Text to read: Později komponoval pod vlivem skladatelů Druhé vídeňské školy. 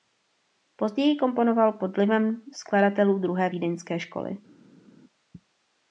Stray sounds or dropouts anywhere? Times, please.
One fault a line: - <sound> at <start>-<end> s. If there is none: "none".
none